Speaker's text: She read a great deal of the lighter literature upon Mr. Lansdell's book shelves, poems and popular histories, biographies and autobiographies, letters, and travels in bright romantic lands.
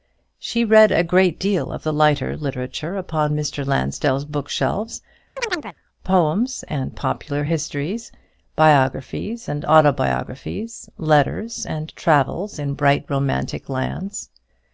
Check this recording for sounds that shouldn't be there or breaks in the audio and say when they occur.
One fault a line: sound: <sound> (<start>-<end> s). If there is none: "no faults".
sound: chirp (5.4-5.8 s)